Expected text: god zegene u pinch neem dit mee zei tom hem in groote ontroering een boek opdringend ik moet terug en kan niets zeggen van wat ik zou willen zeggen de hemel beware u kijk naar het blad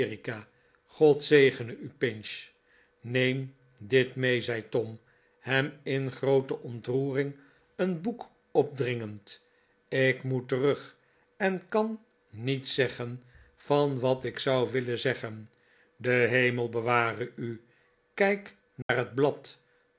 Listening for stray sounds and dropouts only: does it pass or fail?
fail